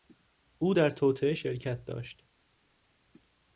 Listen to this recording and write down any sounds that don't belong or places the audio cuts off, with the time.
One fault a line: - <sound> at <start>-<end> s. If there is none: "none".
none